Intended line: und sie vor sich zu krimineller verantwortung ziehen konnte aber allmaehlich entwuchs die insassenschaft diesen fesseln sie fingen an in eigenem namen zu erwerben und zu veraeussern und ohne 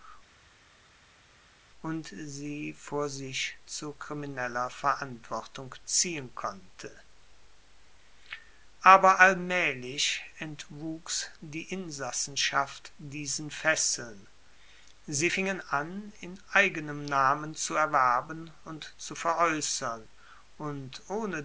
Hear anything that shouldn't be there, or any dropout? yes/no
no